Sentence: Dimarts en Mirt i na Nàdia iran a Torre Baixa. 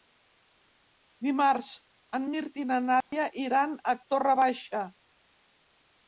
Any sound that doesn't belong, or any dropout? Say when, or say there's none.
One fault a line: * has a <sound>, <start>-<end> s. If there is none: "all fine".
* has a dropout, 3.0-3.1 s